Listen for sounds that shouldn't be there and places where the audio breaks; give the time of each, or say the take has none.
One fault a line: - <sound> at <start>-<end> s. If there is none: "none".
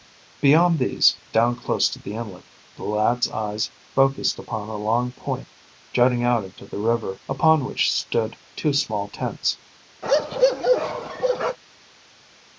- bark at 10.0-11.6 s